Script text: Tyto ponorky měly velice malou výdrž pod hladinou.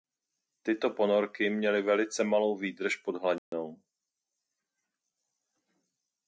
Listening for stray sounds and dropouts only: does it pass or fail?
fail